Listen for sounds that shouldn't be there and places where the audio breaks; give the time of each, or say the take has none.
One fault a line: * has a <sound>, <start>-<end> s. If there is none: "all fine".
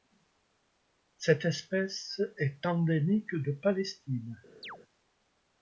* has a chirp, 4.6-4.8 s